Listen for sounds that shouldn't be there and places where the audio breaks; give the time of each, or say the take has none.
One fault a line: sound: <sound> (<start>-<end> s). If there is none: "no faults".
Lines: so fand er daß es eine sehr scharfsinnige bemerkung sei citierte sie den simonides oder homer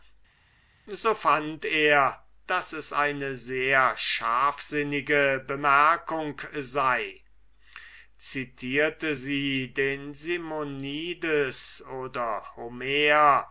no faults